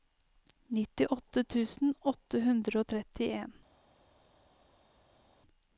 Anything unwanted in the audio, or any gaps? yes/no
no